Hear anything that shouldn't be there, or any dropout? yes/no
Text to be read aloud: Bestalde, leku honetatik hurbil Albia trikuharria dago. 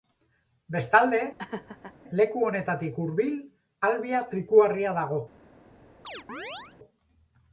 yes